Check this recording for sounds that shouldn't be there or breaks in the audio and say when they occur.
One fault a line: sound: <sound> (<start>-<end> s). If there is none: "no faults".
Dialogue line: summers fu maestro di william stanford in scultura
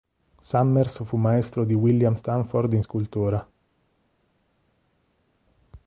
no faults